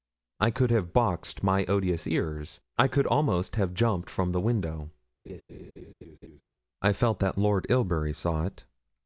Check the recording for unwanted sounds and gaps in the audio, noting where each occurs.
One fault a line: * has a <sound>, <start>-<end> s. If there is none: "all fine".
* has a laugh, 5.3-6.4 s